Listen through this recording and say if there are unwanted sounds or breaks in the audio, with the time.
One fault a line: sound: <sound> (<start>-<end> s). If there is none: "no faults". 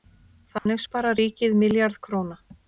sound: dropout (0.6-0.7 s)